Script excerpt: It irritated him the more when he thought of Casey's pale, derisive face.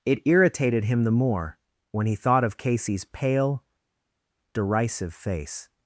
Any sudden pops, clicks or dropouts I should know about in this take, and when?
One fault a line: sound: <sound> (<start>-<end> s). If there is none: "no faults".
no faults